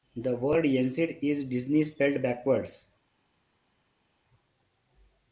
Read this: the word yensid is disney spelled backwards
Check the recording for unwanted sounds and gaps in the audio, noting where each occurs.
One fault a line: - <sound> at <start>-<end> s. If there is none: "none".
none